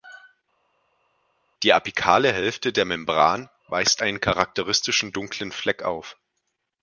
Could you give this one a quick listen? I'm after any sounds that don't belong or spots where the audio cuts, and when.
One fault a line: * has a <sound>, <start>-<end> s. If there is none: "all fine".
all fine